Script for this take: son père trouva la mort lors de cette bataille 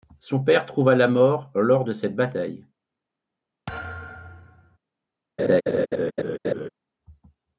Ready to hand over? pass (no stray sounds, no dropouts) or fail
fail